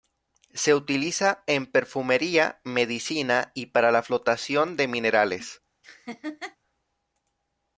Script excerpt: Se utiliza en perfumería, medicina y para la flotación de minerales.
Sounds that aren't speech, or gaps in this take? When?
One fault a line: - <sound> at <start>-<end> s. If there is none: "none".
- laugh at 5.8-6.6 s